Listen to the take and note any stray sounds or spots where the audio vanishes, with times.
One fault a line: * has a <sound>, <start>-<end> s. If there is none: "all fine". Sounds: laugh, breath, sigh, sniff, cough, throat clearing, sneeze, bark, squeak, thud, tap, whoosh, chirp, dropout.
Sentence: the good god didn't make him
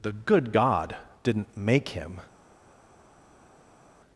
all fine